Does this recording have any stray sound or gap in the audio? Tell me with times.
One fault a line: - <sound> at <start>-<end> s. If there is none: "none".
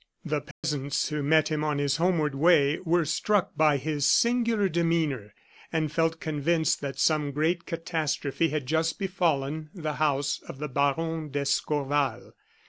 - dropout at 0.5-0.6 s